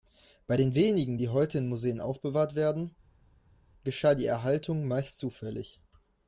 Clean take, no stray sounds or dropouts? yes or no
yes